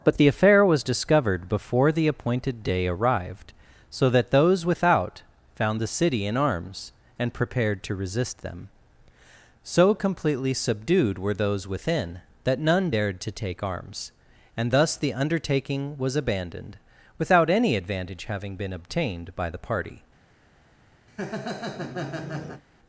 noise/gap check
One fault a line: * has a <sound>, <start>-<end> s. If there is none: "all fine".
* has a laugh, 21.1-22.6 s